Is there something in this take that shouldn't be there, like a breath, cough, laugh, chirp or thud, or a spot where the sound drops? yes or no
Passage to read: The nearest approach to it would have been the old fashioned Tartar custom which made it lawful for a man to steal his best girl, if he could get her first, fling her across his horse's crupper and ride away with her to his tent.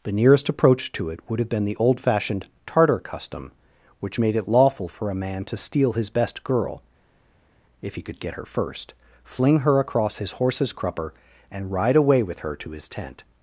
no